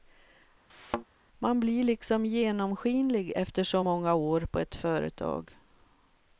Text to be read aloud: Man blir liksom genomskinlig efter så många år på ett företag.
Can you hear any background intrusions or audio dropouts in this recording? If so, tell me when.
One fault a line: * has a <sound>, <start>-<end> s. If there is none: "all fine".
* has a thud, 0.7-1.0 s